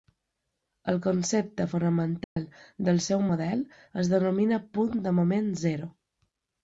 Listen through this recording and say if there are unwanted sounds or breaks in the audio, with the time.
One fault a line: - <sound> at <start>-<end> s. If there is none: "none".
- dropout at 2.2-2.4 s